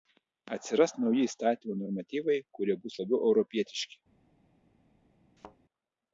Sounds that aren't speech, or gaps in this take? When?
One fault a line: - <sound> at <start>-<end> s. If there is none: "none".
- thud at 5.4-5.6 s